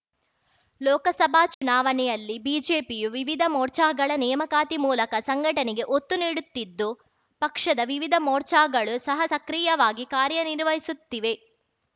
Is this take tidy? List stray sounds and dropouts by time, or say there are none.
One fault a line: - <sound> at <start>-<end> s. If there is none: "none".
- dropout at 1.5-1.6 s